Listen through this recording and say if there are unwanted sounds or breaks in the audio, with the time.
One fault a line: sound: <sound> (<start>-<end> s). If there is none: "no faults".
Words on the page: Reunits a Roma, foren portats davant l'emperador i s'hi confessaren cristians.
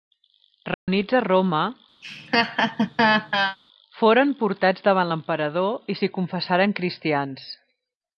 sound: dropout (0.7-0.9 s)
sound: laugh (2.0-3.6 s)